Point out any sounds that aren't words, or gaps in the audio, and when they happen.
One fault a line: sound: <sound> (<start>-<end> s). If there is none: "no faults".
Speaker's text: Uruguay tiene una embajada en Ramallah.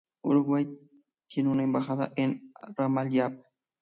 no faults